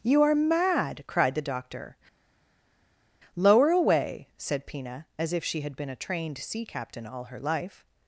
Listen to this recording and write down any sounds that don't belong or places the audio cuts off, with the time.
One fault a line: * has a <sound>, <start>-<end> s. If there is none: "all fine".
all fine